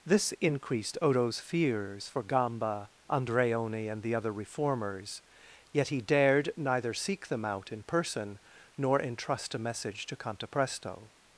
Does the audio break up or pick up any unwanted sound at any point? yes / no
no